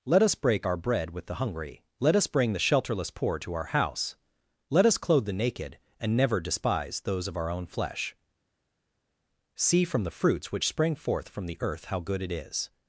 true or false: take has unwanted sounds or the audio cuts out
false